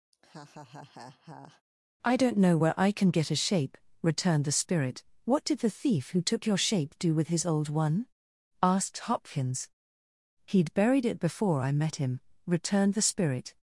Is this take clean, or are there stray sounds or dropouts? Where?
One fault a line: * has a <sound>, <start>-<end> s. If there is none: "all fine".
* has a laugh, 0.1-1.6 s